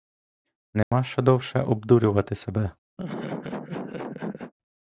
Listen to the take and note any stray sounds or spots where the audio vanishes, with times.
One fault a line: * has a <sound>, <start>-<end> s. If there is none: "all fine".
* has a dropout, 0.8-0.9 s
* has a laugh, 3.0-4.5 s